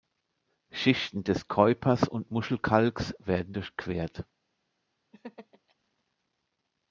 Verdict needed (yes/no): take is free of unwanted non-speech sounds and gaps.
no